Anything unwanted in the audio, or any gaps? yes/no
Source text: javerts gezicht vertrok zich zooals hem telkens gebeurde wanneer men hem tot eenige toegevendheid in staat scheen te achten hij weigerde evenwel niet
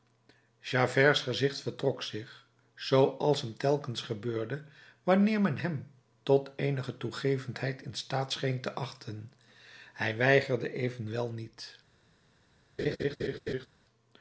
yes